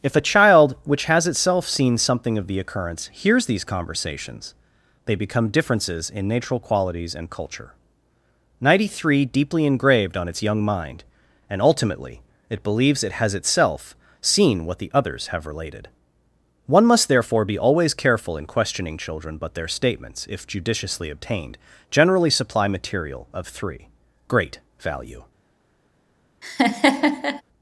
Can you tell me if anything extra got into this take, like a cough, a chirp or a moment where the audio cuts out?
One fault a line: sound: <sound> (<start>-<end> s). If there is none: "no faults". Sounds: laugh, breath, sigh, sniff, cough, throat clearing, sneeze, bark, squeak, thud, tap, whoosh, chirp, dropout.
sound: laugh (26.4-27.4 s)